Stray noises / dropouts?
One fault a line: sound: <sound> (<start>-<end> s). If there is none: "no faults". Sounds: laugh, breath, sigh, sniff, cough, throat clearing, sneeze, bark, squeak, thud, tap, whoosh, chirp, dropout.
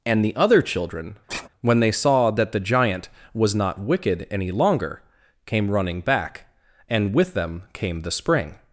sound: sigh (1.3-1.5 s)